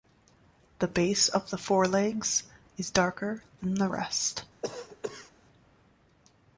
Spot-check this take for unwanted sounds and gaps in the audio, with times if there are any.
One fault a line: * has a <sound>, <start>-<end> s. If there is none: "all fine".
* has a cough, 4.6-5.3 s